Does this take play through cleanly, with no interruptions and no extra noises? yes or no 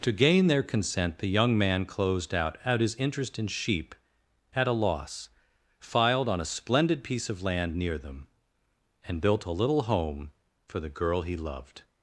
yes